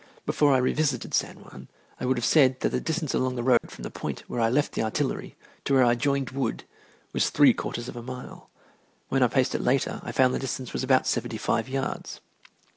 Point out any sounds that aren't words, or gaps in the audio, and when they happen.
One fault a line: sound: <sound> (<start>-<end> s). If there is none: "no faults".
sound: dropout (3.6-3.6 s)